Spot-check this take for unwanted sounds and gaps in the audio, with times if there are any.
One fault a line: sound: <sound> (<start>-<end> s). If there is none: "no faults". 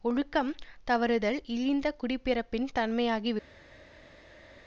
no faults